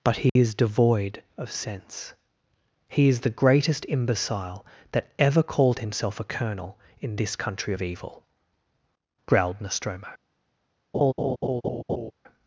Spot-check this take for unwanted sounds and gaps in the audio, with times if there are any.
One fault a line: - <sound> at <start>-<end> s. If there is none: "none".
- dropout at 0.3-0.4 s
- laugh at 10.9-12.1 s